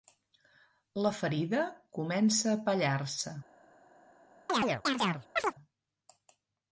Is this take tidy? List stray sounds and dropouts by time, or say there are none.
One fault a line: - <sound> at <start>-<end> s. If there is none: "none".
- chirp at 4.5-5.5 s